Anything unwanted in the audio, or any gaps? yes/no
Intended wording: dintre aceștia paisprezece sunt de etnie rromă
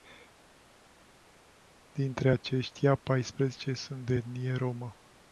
no